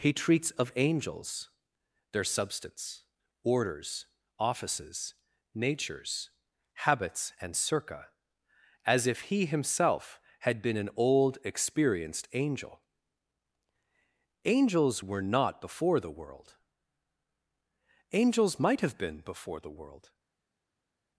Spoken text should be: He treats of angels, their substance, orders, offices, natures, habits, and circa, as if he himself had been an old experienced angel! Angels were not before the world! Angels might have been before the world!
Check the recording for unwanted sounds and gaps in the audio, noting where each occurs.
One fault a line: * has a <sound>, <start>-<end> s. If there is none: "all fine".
all fine